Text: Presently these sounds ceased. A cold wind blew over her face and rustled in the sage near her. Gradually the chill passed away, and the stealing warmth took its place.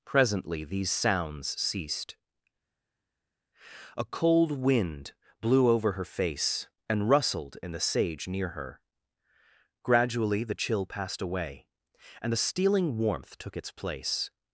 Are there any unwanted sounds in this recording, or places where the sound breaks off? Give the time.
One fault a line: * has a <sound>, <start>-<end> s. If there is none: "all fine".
all fine